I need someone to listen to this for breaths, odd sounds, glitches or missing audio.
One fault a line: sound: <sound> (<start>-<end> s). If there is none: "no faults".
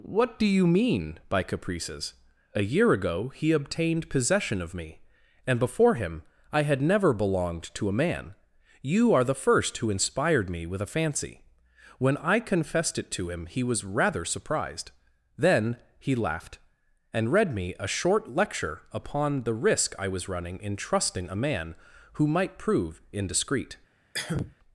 sound: cough (24.1-24.5 s)